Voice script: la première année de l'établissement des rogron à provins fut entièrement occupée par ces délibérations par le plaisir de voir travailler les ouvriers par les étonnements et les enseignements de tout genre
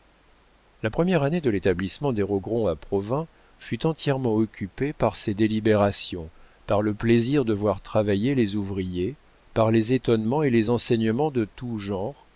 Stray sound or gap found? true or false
false